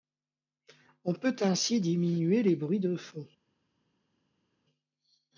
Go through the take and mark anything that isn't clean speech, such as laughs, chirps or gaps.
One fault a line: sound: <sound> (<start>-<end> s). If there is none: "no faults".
no faults